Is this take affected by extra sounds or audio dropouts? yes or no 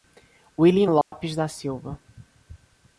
yes